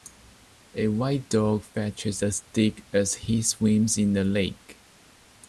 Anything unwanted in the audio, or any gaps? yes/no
no